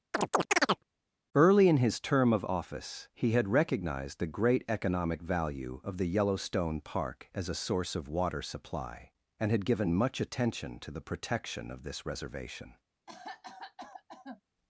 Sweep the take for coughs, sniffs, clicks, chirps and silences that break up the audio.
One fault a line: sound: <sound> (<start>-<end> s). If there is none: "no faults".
sound: chirp (0.1-0.8 s)
sound: cough (13.1-14.4 s)